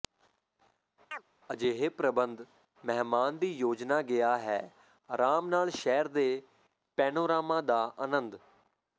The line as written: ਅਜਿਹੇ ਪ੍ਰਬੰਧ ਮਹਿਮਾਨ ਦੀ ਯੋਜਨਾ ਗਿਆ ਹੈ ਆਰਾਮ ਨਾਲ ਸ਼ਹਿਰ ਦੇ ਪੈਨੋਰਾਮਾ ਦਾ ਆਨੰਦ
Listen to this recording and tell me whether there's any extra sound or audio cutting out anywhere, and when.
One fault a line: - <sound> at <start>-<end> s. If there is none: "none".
- chirp at 1.1-1.2 s